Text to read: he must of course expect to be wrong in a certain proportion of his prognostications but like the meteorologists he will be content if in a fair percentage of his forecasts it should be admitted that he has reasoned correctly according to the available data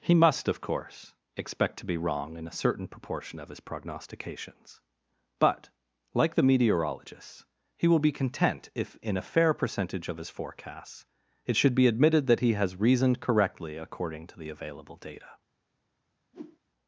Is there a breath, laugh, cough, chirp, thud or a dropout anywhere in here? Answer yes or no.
yes